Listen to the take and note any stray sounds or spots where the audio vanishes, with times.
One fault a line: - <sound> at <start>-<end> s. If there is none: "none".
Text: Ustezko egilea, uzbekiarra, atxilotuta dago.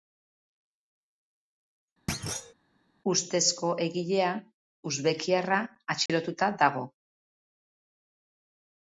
- thud at 2.1-2.5 s
- dropout at 6.1-6.1 s